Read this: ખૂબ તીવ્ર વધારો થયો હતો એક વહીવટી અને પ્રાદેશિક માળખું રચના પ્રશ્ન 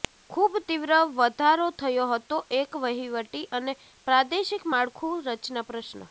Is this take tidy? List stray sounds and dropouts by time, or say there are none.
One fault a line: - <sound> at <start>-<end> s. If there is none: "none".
none